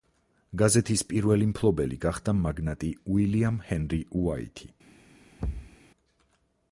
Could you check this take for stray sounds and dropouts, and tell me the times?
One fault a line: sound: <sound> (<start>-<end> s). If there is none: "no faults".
sound: thud (5.4-5.8 s)